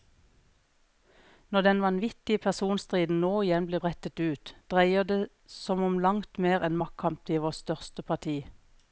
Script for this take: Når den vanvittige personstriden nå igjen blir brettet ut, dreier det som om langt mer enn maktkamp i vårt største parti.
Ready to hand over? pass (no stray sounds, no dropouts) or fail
pass